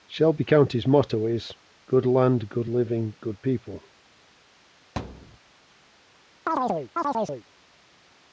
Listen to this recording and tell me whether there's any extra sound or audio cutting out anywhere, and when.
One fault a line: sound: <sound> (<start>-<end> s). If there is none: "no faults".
sound: thud (5.0-5.4 s)
sound: chirp (6.5-7.4 s)